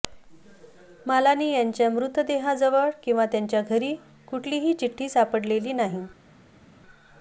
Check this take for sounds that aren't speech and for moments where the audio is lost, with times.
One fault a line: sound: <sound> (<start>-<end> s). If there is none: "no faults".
no faults